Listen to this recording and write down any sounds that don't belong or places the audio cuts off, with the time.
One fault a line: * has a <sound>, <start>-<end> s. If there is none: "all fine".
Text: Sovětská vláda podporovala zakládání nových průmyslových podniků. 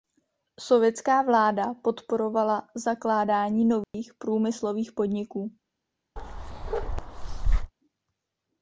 * has a dropout, 3.8-3.9 s
* has a bark, 6.2-7.7 s